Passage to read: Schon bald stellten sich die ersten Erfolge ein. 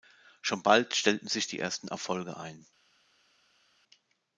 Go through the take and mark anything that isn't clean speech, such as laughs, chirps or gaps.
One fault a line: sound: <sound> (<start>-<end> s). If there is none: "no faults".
no faults